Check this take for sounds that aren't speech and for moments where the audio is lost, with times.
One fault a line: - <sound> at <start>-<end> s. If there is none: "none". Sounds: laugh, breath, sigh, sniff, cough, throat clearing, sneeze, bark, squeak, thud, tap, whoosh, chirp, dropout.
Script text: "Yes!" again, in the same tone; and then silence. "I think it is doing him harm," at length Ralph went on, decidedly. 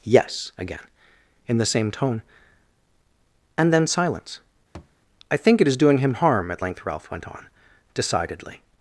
- thud at 4.7-5.0 s